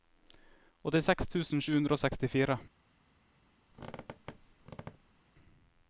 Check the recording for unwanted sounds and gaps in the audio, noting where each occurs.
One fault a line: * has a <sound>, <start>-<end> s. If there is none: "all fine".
* has a squeak, 3.7-5.2 s